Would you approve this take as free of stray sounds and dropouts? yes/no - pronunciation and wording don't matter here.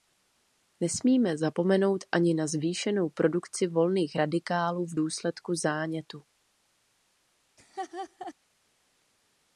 no